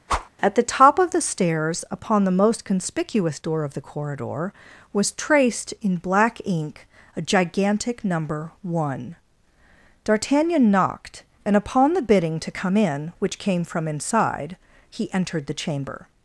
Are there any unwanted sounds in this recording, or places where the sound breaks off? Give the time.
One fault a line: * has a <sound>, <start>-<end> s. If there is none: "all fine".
* has a whoosh, 0.1-0.3 s